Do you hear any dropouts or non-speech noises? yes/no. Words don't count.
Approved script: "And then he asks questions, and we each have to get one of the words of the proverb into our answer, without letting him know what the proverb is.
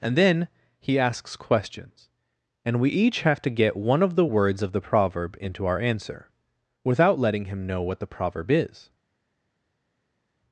no